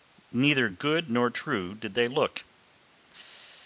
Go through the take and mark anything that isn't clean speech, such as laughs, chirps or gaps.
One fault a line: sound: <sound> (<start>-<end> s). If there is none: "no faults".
no faults